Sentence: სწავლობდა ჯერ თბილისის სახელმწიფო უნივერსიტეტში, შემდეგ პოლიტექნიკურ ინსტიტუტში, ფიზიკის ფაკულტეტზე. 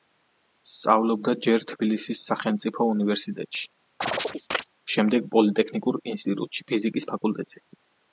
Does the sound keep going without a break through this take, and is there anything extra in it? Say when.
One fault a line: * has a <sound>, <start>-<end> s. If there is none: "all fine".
* has a chirp, 4.0-4.7 s